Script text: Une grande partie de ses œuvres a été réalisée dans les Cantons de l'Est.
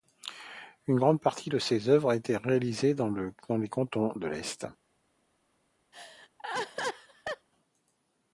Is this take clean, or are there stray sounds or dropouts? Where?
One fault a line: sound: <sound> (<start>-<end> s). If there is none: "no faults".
sound: laugh (5.9-7.5 s)